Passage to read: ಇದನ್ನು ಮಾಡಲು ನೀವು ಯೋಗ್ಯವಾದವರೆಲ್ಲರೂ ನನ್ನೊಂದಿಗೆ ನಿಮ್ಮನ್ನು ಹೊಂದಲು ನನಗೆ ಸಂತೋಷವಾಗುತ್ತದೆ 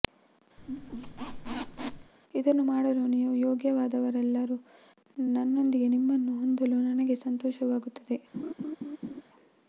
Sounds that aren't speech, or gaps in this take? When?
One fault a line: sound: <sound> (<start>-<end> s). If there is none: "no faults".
sound: squeak (0.6-2.1 s)
sound: laugh (8.3-9.2 s)